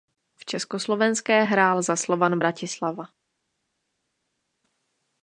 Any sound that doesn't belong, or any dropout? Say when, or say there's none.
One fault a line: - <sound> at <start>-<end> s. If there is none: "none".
none